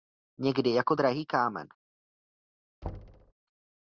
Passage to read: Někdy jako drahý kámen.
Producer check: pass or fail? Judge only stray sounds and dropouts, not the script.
fail